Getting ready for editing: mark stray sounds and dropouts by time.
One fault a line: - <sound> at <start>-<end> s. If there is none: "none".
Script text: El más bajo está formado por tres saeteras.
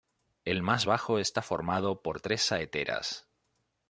none